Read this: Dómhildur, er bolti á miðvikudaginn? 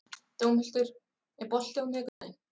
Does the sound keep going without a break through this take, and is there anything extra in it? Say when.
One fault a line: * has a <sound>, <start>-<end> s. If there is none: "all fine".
* has a dropout, 2.1-2.2 s